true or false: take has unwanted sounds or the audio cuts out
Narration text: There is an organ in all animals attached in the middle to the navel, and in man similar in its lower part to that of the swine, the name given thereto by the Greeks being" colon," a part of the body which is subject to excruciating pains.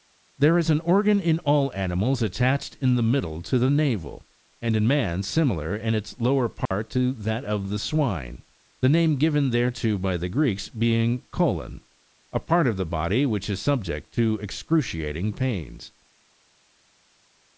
true